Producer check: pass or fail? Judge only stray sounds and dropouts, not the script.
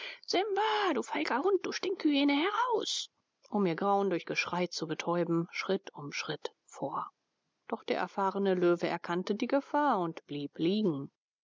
pass